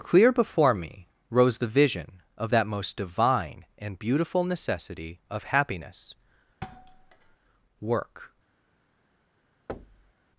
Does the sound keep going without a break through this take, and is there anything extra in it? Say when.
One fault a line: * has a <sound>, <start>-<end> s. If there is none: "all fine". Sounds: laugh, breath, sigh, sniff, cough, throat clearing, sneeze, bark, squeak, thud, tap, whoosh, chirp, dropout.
* has a thud, 6.6-7.4 s
* has a thud, 9.7-10.1 s